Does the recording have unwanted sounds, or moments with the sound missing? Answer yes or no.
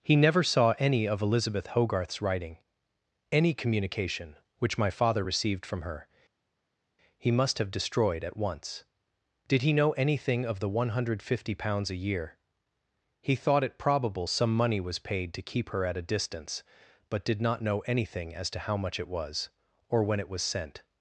no